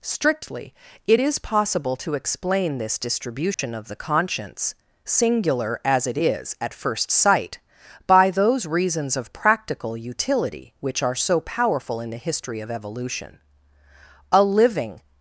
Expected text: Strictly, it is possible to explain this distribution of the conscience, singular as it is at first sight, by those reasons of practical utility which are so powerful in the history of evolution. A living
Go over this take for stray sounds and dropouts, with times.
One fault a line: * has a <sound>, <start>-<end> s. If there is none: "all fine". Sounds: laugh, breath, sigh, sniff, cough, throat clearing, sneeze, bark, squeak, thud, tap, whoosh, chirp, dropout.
* has a dropout, 3.5-3.6 s